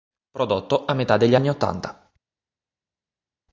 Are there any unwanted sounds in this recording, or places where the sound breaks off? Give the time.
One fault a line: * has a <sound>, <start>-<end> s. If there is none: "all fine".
all fine